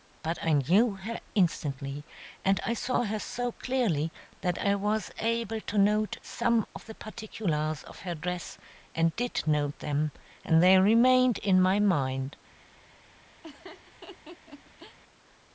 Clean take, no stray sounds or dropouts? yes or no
no